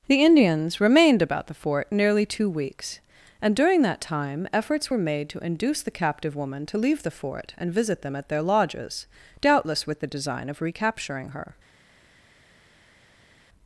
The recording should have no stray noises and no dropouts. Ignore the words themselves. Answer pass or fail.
pass